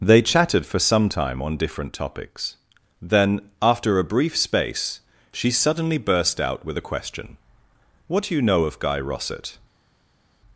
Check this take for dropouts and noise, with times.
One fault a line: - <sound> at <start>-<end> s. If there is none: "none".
none